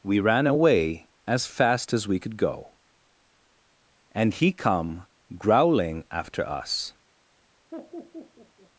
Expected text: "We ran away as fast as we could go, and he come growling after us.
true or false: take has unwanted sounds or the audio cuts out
true